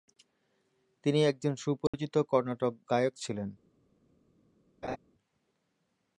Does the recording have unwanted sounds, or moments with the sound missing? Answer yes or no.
yes